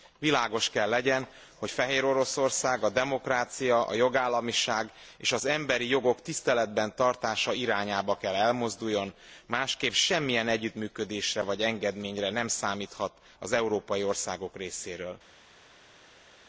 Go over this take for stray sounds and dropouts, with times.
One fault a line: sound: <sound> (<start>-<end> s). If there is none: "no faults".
no faults